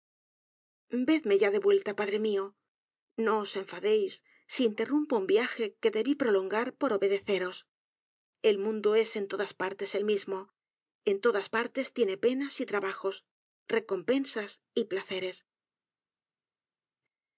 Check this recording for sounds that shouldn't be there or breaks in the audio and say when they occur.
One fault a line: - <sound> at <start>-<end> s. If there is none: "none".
none